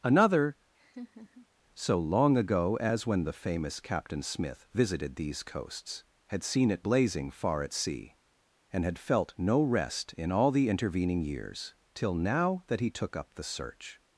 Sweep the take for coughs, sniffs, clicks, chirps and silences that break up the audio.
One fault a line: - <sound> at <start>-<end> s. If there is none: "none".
- laugh at 0.7-1.5 s